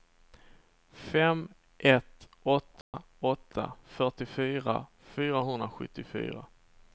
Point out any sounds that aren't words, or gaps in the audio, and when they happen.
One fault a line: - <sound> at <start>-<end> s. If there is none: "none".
- dropout at 2.8-2.9 s